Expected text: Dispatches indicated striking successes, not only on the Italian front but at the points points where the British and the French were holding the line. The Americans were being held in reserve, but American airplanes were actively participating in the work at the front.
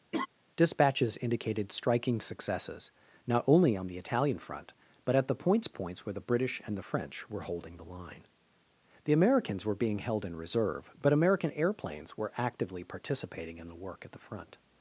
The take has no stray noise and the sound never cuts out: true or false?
false